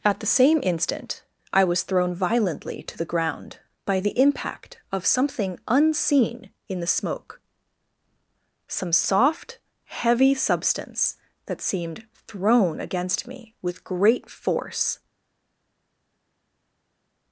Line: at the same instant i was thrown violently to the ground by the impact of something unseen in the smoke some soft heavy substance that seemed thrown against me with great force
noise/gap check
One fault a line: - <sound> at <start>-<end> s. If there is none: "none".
none